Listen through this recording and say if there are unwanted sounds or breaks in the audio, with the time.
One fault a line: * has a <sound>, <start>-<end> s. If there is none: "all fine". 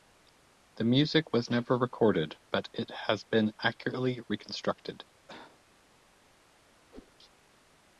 * has a cough, 5.3-5.6 s
* has a whoosh, 6.9-7.1 s